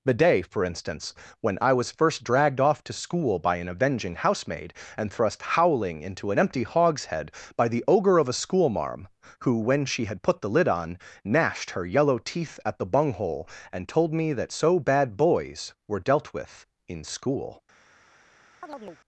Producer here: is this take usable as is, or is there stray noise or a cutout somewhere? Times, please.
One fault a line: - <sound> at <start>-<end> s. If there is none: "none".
- chirp at 18.6-19.0 s